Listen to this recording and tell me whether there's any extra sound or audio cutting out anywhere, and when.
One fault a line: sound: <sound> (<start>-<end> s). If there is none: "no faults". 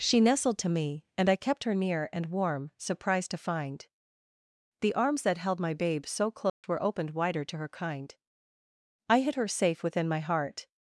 sound: dropout (6.5-6.6 s)